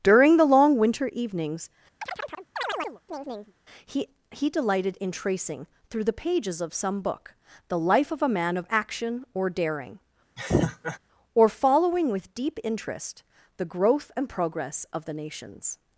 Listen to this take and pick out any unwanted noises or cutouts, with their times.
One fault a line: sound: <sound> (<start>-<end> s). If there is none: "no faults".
sound: chirp (2.0-3.5 s)
sound: laugh (10.4-11.0 s)